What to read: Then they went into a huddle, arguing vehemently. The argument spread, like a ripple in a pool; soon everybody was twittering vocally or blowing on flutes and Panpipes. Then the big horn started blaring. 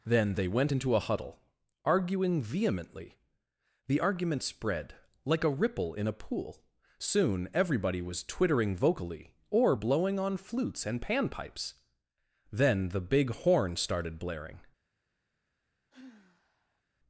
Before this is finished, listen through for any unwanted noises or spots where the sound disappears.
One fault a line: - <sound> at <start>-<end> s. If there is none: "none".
- sigh at 15.9-16.8 s